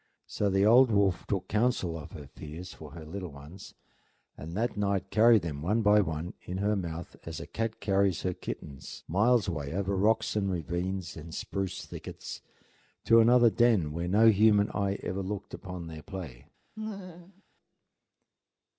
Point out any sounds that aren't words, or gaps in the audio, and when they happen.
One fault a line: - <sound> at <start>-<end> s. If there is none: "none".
- laugh at 16.8-17.4 s